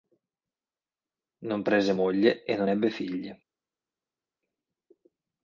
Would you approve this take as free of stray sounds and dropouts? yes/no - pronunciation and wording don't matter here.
yes